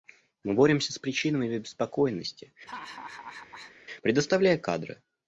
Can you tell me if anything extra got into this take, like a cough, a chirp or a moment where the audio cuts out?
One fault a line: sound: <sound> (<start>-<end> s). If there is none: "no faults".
sound: laugh (2.7-3.7 s)